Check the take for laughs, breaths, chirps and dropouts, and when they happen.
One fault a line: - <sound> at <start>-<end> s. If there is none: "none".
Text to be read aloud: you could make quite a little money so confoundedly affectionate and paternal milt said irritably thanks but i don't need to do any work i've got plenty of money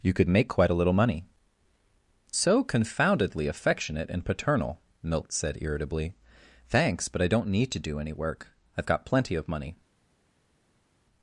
none